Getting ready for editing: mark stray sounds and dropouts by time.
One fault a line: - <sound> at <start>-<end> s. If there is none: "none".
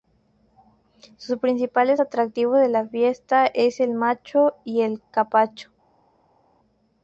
none